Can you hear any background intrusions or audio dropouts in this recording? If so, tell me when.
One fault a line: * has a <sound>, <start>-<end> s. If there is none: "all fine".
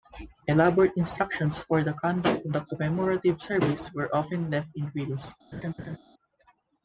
* has a laugh, 5.5-6.0 s